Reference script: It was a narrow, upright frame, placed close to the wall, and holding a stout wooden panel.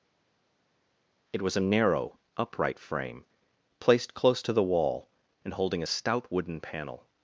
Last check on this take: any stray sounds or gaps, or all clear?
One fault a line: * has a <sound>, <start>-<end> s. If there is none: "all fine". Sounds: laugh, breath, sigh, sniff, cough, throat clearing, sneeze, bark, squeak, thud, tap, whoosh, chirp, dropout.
all fine